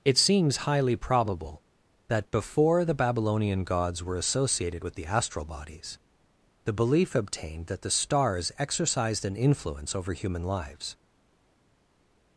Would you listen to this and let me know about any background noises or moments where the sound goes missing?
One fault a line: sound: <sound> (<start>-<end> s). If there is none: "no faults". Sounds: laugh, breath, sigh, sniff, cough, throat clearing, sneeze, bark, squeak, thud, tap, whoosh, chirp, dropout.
no faults